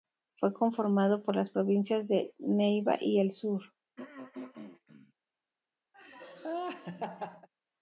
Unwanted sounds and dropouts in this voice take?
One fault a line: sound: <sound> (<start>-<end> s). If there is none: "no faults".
sound: throat clearing (4.0-5.1 s)
sound: laugh (5.9-7.5 s)